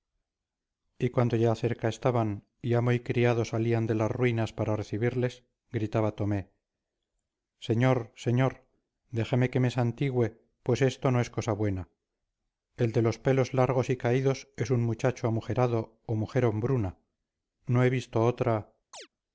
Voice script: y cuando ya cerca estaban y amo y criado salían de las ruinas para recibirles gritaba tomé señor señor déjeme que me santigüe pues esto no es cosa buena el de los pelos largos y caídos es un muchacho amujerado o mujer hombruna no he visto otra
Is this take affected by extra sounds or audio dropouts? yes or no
yes